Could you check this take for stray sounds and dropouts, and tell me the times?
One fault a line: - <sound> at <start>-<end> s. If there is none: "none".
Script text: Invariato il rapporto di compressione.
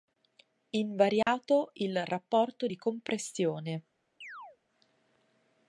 - dropout at 1.2-1.3 s
- chirp at 4.2-4.6 s